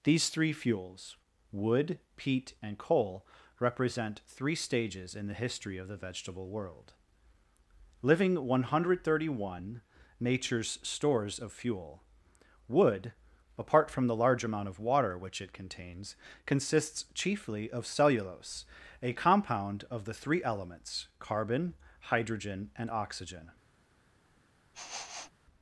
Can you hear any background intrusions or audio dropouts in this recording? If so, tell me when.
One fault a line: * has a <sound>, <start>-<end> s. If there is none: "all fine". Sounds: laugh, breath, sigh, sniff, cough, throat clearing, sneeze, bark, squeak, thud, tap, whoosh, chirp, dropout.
* has a sniff, 24.7-25.3 s